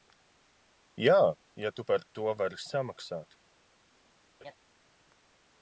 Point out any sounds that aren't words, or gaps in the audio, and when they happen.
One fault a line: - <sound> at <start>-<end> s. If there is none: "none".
- laugh at 4.4-4.5 s